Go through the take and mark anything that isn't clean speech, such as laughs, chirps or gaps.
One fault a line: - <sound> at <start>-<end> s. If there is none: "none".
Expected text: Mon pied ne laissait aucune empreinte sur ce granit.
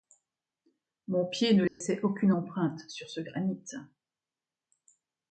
- dropout at 1.7-1.8 s